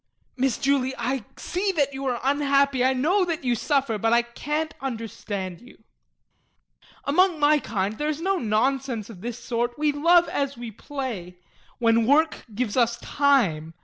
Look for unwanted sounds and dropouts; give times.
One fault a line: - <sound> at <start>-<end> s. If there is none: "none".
none